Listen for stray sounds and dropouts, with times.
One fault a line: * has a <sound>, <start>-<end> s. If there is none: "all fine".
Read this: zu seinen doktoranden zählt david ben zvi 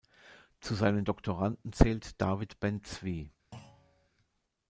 * has a thud, 3.5-4.1 s